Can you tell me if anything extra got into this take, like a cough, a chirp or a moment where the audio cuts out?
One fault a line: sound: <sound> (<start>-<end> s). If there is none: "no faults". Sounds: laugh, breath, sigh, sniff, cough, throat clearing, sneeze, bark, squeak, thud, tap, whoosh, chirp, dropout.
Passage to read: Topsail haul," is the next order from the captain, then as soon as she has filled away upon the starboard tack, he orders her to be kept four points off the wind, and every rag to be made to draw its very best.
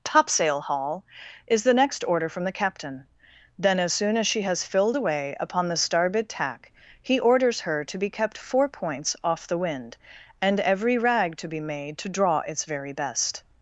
no faults